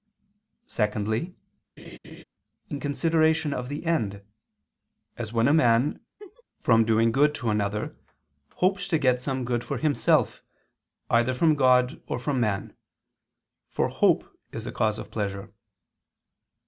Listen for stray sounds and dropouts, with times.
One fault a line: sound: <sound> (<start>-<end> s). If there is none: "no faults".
sound: laugh (1.8-2.2 s)
sound: laugh (6.2-6.4 s)